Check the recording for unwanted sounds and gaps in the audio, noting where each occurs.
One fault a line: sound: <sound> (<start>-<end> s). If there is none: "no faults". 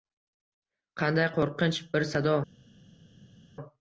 no faults